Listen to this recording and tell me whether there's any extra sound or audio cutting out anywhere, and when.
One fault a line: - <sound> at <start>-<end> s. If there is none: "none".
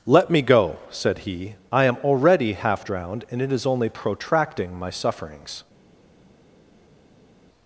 none